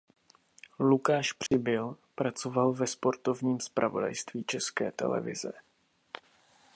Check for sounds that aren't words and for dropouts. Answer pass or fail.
fail